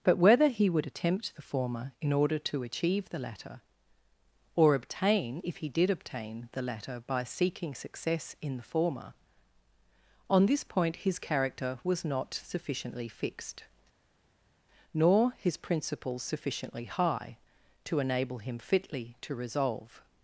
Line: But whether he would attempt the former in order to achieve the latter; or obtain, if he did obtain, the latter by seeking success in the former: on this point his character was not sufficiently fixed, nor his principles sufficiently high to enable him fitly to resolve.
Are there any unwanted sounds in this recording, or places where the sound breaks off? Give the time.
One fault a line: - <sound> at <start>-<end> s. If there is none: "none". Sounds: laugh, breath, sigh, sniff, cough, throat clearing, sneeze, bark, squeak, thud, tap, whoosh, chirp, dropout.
none